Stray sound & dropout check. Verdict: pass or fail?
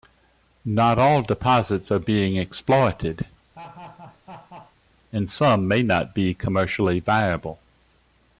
fail